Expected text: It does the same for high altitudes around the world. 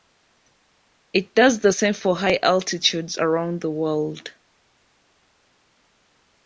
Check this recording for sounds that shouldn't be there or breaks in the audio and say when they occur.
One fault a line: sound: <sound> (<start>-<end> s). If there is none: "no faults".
no faults